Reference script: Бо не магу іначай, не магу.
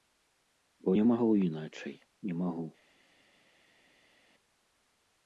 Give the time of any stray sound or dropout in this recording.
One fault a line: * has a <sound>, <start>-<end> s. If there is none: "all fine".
all fine